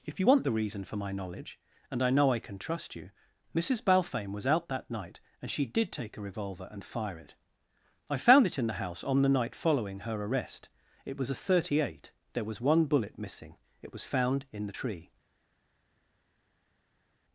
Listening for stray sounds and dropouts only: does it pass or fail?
pass